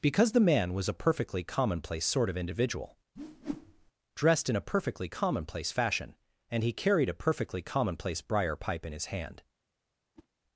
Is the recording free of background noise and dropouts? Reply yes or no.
no